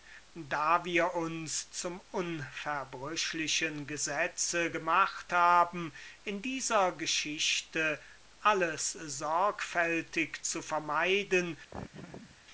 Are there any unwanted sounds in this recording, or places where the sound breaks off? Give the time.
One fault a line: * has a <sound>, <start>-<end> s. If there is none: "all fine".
* has a laugh, 11.7-12.4 s